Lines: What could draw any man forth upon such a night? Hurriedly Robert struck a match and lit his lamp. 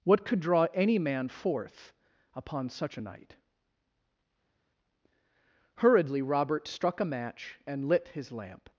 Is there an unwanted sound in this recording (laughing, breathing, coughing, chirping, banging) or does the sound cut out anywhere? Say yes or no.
no